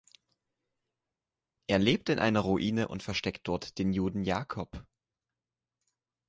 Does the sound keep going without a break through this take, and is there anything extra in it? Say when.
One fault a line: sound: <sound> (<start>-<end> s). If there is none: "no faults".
no faults